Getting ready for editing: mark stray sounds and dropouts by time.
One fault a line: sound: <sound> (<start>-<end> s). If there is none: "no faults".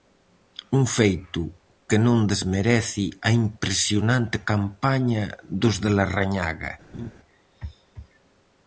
sound: laugh (6.9-7.1 s)